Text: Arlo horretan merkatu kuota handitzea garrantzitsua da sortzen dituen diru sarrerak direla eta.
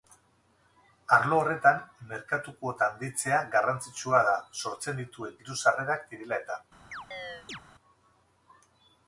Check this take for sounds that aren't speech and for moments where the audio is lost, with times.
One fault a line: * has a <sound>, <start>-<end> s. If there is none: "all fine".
* has a chirp, 6.9-7.6 s